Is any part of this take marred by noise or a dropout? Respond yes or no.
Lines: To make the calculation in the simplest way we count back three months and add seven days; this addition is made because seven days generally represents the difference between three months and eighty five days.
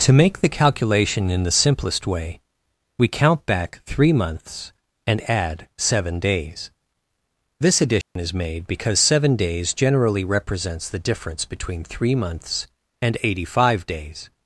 yes